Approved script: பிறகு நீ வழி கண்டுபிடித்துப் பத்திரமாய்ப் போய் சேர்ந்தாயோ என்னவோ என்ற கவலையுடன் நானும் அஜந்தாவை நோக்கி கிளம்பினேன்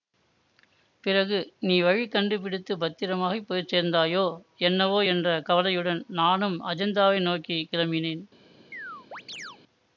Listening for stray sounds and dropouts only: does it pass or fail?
fail